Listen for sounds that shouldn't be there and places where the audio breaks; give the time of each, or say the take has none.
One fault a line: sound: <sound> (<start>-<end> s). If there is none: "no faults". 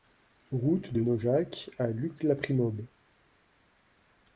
no faults